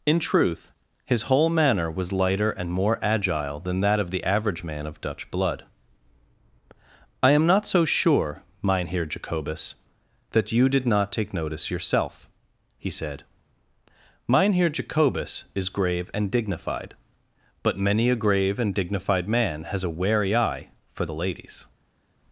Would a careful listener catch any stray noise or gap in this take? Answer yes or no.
no